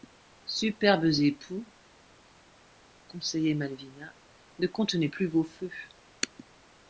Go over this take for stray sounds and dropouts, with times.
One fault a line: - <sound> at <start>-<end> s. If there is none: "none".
none